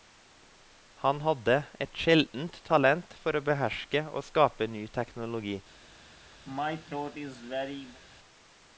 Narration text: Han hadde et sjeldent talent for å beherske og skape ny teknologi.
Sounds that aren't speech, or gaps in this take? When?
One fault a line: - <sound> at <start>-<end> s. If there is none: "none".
- throat clearing at 6.4-8.0 s